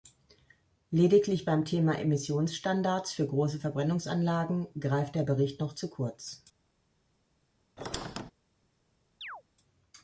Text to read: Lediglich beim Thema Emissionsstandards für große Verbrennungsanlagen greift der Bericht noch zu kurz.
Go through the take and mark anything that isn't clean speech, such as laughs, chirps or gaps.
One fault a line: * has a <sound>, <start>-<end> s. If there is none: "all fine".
* has a squeak, 7.8-8.3 s
* has a chirp, 9.2-9.4 s